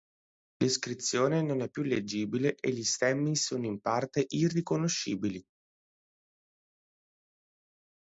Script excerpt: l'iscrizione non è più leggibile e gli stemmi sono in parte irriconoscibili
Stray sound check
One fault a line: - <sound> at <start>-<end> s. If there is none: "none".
none